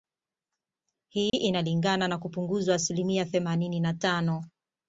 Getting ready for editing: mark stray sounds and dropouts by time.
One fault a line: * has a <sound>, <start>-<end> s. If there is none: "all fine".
* has a dropout, 1.3-1.3 s